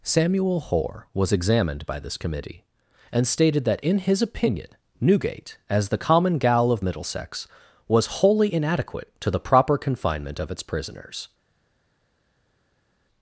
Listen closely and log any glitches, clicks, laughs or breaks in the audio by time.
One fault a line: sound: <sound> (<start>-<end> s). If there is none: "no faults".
no faults